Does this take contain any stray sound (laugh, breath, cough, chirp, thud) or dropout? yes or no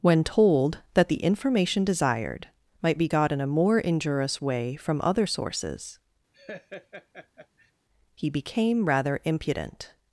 yes